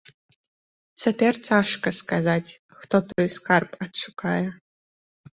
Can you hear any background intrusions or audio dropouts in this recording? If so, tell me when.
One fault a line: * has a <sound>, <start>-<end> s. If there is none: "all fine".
all fine